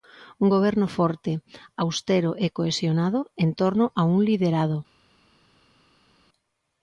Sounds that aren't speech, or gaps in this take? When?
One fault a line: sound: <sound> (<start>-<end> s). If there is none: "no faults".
no faults